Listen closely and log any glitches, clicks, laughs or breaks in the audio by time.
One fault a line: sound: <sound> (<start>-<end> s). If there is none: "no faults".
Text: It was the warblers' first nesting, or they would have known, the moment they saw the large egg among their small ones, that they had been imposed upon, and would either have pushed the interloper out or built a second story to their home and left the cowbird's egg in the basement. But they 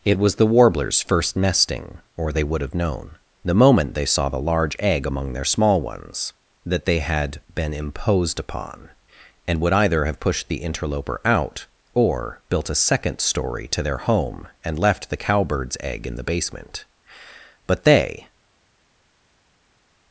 no faults